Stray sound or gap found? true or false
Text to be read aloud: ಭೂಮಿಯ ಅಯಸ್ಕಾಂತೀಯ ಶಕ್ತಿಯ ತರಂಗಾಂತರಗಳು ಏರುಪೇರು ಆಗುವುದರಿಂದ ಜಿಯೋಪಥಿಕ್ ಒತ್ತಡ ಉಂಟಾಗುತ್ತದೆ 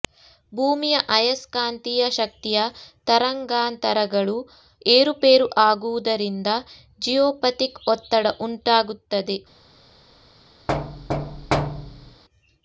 true